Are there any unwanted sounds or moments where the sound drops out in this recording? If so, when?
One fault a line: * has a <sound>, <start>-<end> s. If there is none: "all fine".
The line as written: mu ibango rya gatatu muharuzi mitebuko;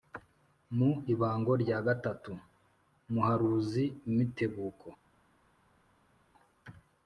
all fine